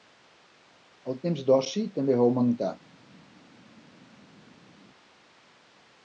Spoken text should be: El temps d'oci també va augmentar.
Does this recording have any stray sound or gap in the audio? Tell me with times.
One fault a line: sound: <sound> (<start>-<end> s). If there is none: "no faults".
no faults